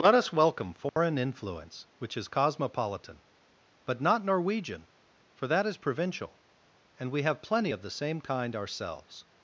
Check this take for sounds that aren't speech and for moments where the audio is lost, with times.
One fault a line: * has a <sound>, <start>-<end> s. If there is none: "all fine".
* has a dropout, 0.9-1.0 s